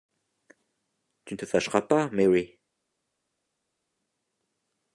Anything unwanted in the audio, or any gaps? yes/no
no